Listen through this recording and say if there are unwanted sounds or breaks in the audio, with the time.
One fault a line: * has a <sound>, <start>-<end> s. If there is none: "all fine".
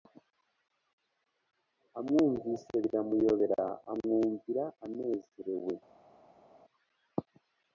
all fine